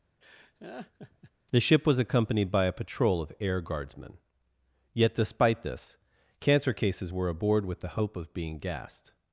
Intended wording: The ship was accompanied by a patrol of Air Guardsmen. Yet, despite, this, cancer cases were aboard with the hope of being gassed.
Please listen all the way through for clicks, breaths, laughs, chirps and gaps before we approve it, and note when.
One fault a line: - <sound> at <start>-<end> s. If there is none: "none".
- laugh at 0.2-1.3 s